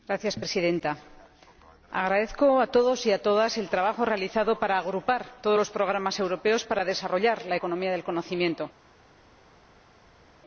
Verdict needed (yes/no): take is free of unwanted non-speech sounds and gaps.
yes